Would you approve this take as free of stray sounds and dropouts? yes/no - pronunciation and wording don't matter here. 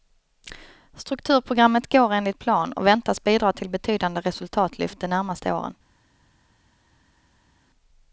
yes